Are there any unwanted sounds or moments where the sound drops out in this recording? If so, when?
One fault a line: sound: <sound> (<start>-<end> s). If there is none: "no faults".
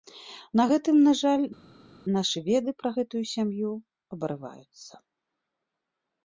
no faults